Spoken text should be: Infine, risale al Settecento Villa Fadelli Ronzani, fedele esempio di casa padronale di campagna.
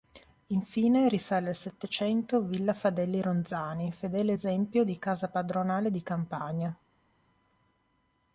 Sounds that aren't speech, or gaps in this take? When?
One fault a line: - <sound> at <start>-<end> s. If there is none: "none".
none